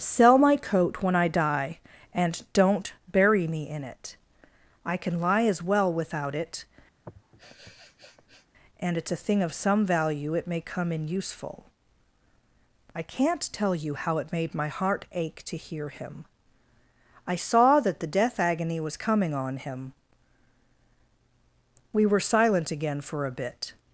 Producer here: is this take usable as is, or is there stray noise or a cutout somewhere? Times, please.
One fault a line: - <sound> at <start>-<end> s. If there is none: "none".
- sniff at 7.0-8.5 s